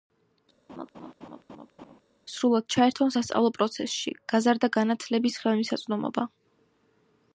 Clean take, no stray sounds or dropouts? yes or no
no